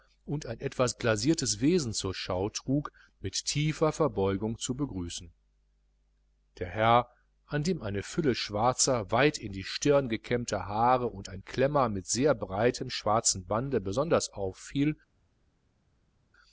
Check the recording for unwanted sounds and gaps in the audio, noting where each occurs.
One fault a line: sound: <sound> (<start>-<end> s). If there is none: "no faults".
no faults